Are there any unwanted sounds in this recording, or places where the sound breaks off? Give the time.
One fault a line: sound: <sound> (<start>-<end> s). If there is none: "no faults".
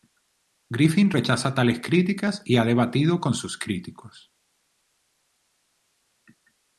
no faults